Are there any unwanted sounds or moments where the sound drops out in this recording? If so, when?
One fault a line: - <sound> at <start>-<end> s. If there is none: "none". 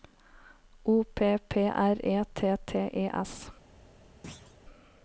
- thud at 4.2-4.6 s